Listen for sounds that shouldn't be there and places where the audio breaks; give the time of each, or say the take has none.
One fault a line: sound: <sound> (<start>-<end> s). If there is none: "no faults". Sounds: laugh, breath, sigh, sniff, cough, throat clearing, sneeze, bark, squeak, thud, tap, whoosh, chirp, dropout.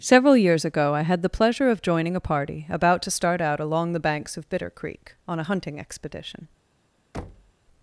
sound: thud (7.1-7.5 s)